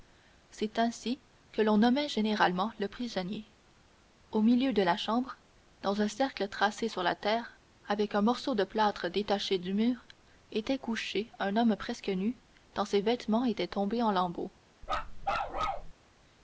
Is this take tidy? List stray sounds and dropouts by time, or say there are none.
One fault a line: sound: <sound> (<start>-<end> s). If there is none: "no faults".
sound: bark (14.8-15.9 s)